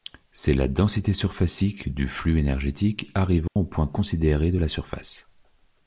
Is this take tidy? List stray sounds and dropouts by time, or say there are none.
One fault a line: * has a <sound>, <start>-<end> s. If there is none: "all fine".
* has a dropout, 3.5-3.6 s